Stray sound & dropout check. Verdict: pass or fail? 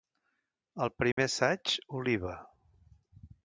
fail